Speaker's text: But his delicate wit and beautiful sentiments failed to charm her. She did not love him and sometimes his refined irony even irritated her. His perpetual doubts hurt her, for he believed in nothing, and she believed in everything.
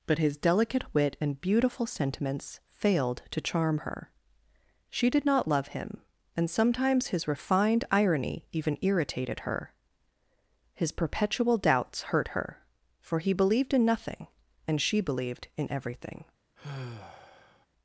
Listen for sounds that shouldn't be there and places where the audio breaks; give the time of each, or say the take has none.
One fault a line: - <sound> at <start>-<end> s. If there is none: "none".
- sigh at 16.6-17.7 s